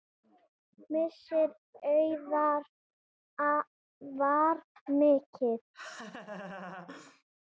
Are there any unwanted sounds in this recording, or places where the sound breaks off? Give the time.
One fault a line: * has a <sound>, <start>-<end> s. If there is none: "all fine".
* has a laugh, 5.7-7.2 s